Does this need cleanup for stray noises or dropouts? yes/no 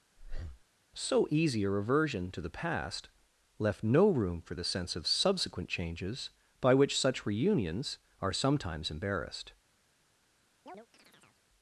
yes